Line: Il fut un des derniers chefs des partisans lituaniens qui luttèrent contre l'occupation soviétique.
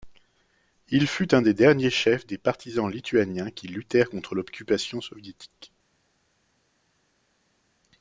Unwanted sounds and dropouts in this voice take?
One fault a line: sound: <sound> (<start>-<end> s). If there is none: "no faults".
no faults